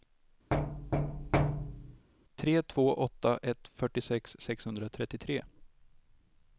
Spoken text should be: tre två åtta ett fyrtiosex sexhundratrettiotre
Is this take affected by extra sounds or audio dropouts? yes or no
yes